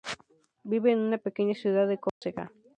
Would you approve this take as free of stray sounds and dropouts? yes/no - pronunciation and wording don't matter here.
no